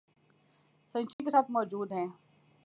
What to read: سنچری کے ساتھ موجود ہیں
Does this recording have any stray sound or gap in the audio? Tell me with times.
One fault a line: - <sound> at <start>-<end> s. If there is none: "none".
- dropout at 1.1-1.2 s